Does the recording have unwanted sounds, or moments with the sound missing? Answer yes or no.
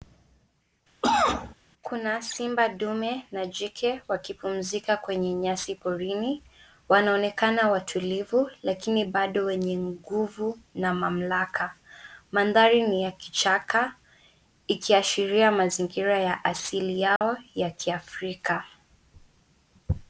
yes